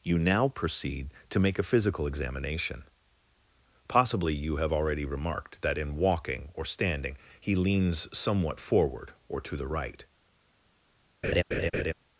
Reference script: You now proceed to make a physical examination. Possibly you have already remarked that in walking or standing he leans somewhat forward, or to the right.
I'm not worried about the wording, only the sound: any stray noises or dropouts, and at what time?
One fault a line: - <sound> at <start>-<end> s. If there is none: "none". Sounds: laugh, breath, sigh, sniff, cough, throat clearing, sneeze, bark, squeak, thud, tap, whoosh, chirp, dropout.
- laugh at 11.2-11.9 s